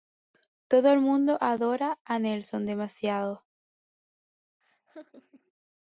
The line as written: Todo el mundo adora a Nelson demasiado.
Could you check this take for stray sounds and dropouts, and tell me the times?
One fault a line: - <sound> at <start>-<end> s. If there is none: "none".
- laugh at 4.6-5.5 s